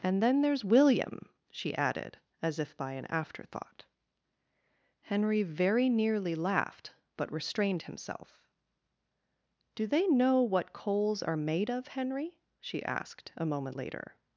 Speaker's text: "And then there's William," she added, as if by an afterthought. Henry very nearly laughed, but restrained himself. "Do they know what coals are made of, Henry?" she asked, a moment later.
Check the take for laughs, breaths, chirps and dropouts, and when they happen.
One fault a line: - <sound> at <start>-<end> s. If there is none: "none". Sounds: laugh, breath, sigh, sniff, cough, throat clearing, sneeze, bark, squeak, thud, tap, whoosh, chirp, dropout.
none